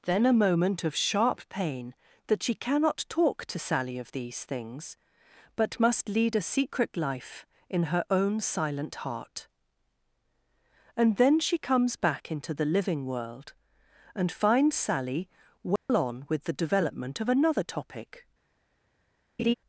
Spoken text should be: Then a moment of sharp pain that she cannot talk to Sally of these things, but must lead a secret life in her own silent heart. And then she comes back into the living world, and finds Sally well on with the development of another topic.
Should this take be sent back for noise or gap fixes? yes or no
yes